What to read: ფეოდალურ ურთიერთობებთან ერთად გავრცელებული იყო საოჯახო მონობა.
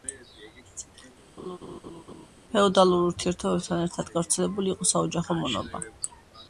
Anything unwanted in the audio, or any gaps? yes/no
yes